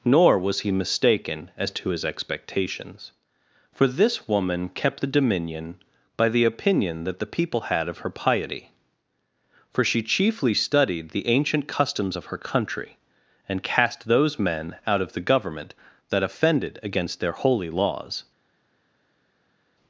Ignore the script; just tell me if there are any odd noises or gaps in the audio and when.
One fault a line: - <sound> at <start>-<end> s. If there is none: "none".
none